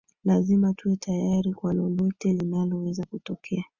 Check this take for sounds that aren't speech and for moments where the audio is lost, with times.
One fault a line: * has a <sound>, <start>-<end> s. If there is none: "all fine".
all fine